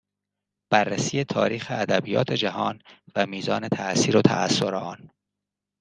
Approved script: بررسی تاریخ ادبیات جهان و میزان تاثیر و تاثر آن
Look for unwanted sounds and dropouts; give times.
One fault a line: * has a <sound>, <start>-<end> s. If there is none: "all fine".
all fine